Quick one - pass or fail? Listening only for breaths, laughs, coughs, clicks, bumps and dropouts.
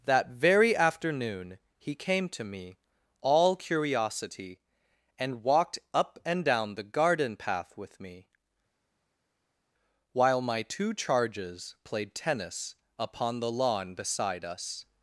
pass